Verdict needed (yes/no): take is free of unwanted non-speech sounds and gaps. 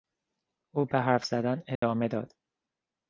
no